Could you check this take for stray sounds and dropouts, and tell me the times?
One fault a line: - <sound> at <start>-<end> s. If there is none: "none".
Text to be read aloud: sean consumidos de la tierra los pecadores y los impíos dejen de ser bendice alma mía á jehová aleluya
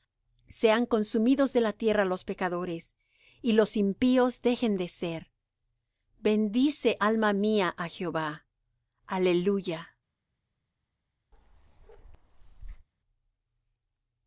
- bark at 11.3-12.9 s